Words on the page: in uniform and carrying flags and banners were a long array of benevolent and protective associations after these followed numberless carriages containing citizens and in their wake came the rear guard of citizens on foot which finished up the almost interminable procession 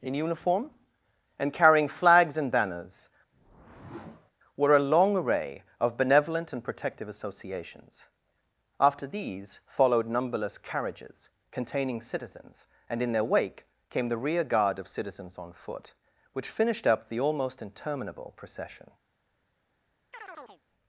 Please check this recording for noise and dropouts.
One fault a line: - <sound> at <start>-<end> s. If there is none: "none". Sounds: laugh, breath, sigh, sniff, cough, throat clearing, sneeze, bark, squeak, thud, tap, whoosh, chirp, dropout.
- whoosh at 3.3-4.3 s
- chirp at 20.1-20.6 s